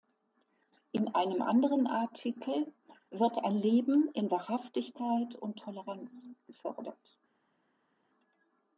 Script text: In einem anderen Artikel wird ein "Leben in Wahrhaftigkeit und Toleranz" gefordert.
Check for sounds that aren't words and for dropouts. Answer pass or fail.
pass